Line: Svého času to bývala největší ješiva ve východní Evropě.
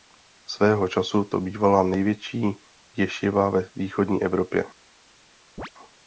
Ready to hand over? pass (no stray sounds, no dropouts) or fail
fail